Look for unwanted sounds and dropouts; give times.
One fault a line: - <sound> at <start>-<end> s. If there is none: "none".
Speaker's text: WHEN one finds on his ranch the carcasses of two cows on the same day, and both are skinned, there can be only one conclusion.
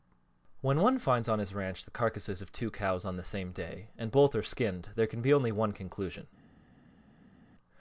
none